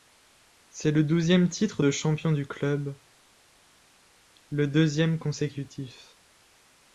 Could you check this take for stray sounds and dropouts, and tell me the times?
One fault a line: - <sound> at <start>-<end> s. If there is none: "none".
none